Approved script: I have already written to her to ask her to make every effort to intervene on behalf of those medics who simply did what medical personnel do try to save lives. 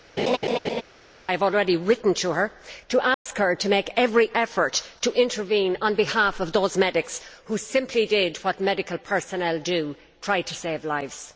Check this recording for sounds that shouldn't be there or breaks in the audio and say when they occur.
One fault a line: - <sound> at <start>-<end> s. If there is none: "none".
- laugh at 0.2-0.8 s
- dropout at 3.1-3.3 s